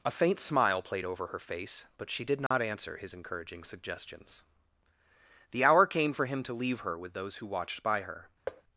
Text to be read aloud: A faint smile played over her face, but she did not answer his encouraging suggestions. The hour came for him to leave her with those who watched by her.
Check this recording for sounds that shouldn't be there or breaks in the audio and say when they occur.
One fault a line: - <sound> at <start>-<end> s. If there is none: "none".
- dropout at 2.5-2.5 s
- thud at 8.5-8.6 s